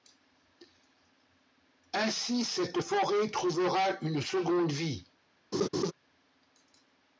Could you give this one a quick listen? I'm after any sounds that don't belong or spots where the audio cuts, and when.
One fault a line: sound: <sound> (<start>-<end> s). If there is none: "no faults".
sound: laugh (5.5-5.9 s)